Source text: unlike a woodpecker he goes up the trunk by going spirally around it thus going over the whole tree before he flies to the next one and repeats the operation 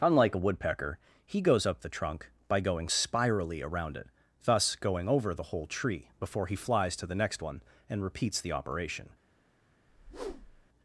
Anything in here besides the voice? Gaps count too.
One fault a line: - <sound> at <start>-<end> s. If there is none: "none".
- whoosh at 9.9-10.7 s